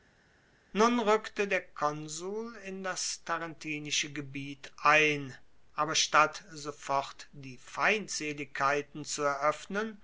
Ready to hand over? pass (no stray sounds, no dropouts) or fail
pass